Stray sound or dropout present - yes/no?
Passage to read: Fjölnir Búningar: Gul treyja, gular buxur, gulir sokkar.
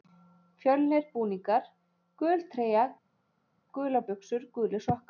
no